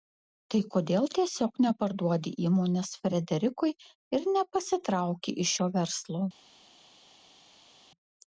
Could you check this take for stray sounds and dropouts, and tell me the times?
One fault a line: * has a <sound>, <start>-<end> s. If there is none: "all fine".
all fine